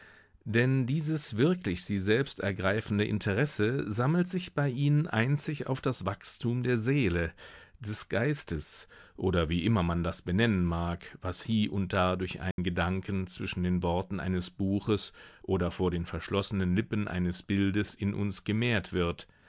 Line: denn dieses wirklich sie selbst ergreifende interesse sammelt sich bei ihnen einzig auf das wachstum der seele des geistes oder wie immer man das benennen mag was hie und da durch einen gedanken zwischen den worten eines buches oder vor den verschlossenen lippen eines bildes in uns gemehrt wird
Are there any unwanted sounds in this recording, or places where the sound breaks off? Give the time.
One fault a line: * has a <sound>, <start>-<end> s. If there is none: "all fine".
* has a dropout, 12.5-12.6 s